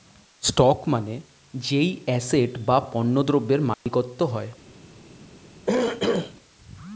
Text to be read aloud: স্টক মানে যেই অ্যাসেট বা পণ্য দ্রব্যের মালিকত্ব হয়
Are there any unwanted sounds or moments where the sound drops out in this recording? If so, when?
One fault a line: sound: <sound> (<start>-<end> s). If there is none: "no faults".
sound: dropout (3.7-3.9 s)
sound: throat clearing (5.7-6.3 s)